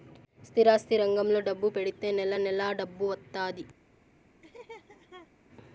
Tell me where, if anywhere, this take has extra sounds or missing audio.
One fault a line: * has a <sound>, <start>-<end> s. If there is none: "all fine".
* has a laugh, 4.4-5.3 s